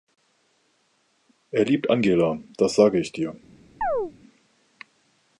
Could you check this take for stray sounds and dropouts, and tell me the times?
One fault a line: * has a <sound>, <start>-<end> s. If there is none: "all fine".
* has a chirp, 3.8-4.1 s